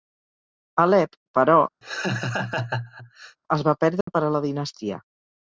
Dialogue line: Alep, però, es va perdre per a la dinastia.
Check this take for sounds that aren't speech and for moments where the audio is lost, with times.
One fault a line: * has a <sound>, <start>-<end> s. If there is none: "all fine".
* has a laugh, 1.8-3.4 s
* has a dropout, 4.0-4.1 s